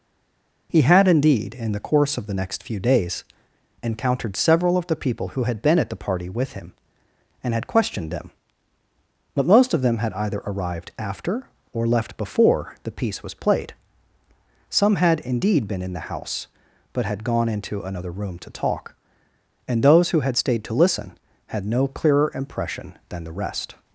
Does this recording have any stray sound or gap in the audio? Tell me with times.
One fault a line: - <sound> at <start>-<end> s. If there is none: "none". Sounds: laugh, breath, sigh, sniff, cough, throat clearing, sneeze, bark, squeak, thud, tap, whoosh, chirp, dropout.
none